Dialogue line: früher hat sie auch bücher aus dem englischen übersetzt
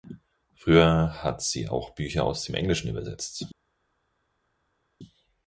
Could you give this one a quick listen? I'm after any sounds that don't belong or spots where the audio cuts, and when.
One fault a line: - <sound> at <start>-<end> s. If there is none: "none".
none